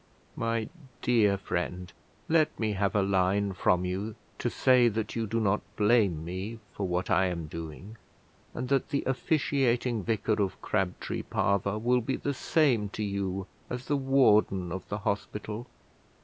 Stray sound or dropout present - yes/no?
no